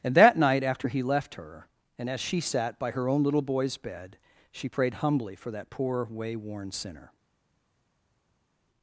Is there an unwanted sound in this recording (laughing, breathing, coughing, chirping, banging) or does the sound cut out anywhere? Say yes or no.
no